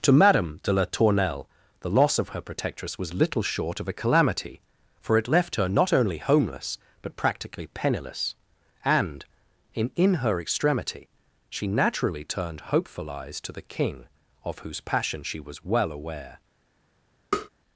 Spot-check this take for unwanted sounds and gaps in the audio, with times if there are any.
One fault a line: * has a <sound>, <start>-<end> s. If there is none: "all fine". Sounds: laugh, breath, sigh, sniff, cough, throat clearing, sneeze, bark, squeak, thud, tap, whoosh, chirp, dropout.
* has a tap, 17.3-17.5 s